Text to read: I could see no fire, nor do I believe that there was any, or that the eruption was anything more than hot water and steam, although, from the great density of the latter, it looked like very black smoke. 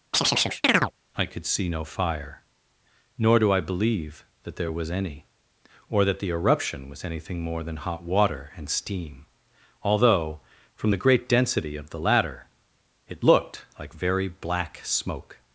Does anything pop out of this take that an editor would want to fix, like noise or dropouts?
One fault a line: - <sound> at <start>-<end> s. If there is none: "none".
- chirp at 0.1-0.9 s